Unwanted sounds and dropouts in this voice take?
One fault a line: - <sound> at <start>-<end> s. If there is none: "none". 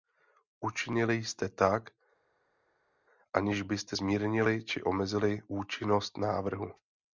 none